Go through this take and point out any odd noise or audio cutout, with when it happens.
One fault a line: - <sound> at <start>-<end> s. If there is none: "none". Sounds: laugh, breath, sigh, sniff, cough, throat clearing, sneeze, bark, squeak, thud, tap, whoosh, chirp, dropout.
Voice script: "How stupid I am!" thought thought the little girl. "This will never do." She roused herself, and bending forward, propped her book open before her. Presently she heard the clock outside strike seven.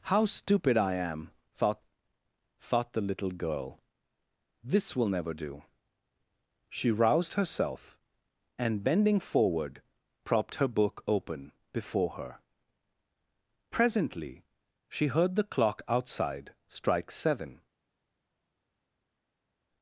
none